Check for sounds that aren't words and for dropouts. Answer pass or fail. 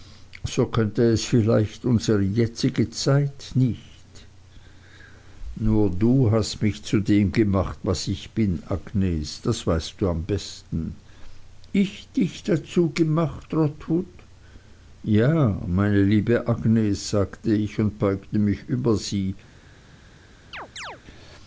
fail